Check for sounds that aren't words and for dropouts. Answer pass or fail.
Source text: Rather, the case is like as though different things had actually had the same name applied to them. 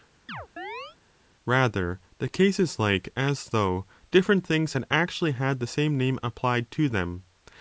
fail